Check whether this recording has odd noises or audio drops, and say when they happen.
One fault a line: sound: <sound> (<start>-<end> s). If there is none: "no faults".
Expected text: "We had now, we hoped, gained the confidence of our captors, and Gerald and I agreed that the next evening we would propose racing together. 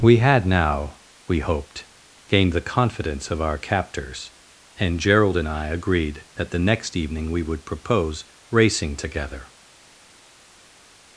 no faults